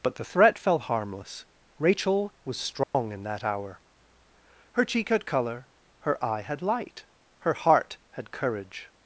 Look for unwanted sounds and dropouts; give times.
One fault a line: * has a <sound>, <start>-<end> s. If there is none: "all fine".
* has a dropout, 2.8-2.9 s